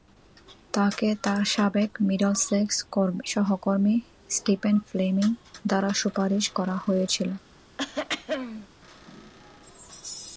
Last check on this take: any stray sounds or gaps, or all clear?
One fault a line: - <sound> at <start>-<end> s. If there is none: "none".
- throat clearing at 7.8-8.7 s